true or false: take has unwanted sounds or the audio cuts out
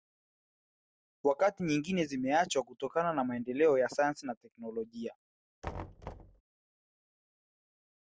true